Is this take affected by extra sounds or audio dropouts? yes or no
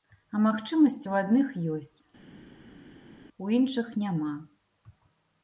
no